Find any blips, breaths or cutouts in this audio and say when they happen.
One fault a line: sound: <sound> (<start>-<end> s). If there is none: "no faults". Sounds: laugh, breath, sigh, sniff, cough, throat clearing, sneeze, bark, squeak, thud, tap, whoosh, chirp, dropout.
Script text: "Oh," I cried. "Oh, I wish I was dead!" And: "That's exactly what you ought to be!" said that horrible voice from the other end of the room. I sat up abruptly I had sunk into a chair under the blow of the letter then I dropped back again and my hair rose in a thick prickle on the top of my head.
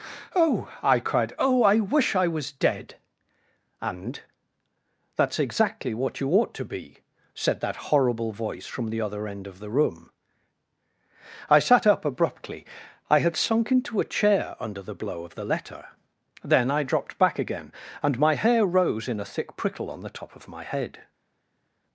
no faults